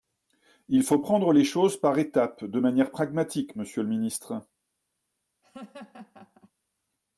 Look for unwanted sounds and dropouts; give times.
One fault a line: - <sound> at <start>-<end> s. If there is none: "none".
- laugh at 5.4-6.5 s